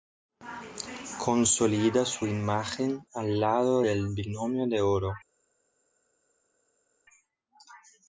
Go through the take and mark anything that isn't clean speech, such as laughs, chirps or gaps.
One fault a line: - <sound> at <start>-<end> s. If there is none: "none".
none